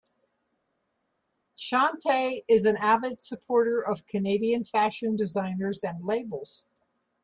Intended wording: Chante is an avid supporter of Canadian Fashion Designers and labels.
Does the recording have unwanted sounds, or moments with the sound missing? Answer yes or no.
no